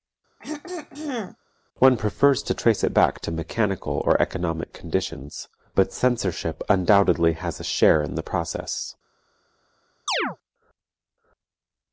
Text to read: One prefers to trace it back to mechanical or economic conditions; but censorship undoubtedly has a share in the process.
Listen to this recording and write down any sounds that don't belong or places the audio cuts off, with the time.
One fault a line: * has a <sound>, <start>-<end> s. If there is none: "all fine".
* has a throat clearing, 0.4-1.4 s
* has a chirp, 10.1-10.4 s